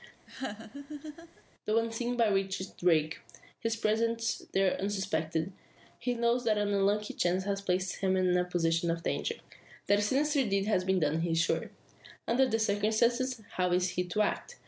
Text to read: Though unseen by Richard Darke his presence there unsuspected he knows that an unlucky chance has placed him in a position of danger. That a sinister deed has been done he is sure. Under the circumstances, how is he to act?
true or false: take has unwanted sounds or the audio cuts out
true